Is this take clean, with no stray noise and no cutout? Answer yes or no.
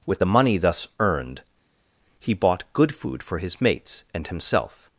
yes